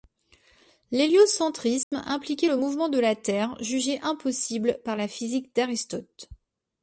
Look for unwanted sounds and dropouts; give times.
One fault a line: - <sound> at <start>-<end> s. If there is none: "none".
- dropout at 1.8-1.9 s